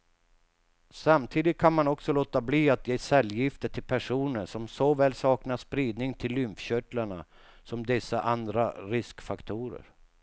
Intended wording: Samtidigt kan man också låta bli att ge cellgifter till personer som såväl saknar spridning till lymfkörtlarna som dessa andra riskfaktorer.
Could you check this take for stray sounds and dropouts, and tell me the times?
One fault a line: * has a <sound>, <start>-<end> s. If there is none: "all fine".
all fine